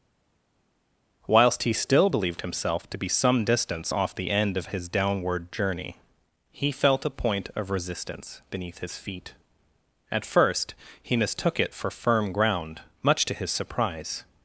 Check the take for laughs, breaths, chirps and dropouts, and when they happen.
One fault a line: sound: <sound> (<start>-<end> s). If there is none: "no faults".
no faults